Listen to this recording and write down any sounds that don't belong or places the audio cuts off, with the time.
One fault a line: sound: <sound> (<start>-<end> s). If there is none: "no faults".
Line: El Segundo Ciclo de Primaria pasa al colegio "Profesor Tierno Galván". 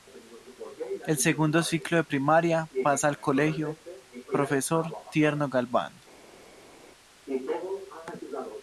no faults